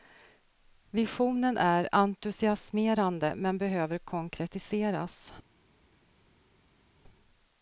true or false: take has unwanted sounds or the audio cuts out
false